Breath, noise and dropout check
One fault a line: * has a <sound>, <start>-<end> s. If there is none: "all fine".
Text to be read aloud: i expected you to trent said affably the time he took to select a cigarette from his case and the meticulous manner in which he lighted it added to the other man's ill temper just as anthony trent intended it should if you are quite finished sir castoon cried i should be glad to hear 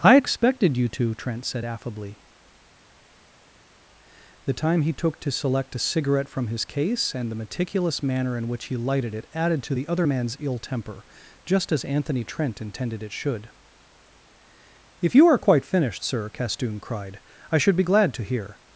all fine